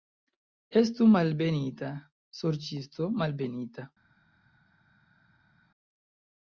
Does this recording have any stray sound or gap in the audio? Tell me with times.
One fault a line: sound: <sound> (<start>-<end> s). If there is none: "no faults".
no faults